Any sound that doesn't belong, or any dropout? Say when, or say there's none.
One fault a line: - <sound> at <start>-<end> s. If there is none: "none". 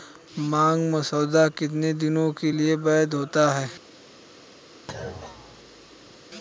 - thud at 4.9-6.2 s